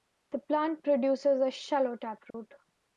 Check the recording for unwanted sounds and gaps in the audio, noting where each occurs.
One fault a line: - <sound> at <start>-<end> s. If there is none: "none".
- dropout at 2.3-2.3 s